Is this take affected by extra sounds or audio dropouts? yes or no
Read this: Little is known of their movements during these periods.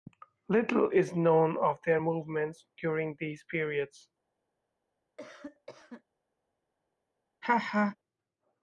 yes